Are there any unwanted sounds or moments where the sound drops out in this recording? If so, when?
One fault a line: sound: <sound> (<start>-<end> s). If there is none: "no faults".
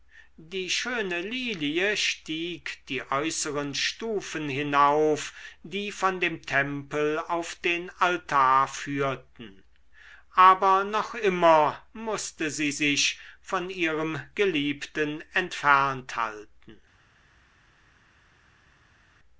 no faults